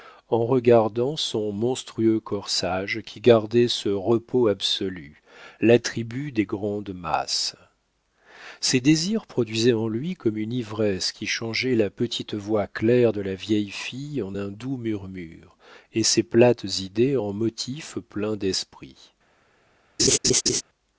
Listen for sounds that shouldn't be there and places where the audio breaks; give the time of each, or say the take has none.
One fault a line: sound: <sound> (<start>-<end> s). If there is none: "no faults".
sound: laugh (20.0-20.6 s)